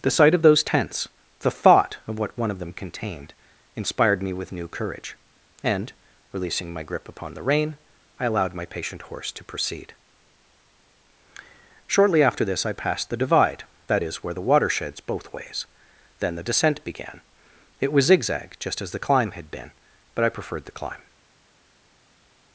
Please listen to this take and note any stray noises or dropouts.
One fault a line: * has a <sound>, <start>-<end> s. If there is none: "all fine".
all fine